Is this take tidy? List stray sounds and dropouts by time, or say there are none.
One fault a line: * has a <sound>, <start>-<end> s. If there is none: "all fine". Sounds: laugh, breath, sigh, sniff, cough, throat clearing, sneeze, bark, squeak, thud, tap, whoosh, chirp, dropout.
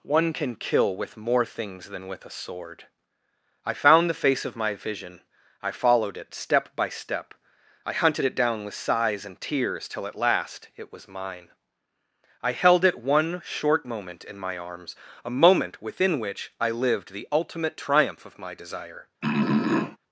* has a throat clearing, 19.2-20.0 s